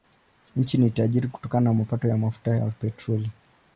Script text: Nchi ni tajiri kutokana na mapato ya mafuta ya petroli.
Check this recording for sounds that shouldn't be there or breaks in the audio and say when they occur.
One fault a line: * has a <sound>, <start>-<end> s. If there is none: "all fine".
all fine